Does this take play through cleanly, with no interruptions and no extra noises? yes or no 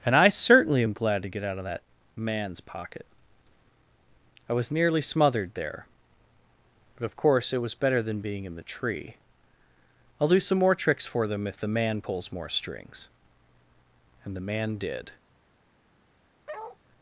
no